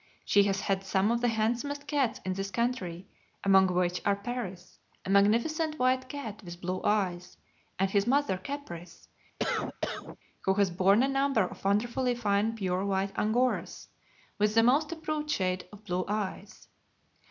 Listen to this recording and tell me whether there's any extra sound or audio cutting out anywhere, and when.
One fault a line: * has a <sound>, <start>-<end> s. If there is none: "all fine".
* has a cough, 9.4-10.2 s